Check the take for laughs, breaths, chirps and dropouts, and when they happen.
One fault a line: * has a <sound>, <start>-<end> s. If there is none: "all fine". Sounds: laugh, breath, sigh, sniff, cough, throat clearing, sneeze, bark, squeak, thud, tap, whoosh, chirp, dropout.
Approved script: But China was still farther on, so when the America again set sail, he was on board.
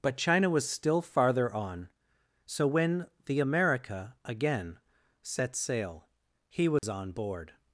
* has a dropout, 6.8-6.8 s